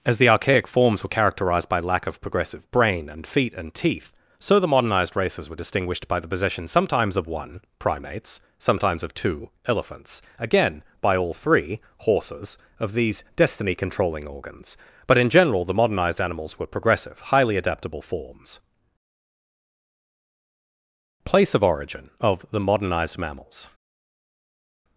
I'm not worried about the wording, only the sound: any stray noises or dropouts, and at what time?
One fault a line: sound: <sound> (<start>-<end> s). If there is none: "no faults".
no faults